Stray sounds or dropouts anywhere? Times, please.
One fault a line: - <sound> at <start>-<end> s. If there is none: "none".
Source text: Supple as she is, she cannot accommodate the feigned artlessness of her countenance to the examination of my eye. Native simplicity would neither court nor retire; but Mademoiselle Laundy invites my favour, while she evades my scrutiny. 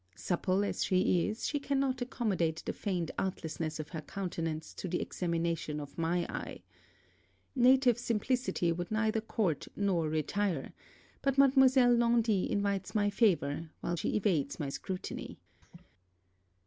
- laugh at 15.6-15.9 s